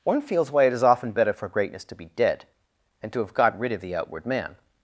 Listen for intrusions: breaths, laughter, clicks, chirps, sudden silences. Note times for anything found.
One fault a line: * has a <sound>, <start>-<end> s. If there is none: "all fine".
all fine